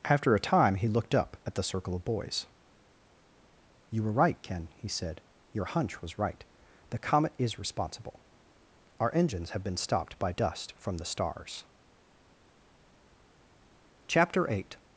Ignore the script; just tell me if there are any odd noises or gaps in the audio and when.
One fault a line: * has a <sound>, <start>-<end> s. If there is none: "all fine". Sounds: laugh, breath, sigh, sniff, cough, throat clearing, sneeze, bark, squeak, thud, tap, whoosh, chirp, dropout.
all fine